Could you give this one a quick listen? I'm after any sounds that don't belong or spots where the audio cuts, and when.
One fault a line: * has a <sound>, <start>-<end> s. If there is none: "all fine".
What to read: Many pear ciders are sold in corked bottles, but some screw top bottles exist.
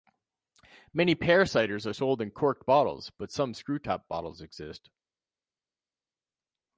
all fine